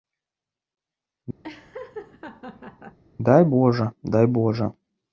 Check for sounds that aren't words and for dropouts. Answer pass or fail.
fail